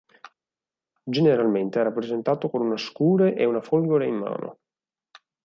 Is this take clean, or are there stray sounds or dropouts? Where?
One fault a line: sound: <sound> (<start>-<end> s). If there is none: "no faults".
no faults